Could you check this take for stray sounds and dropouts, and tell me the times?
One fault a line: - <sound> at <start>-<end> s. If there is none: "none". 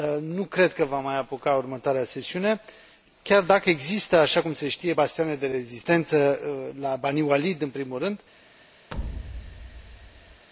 - thud at 8.9-10.5 s